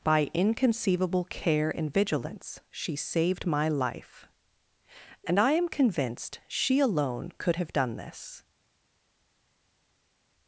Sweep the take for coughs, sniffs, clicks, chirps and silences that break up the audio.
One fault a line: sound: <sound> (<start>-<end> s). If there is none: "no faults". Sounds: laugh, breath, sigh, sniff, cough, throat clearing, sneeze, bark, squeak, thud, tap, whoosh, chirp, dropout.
no faults